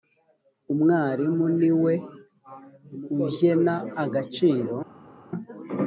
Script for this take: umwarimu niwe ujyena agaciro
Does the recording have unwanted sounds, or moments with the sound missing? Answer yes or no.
no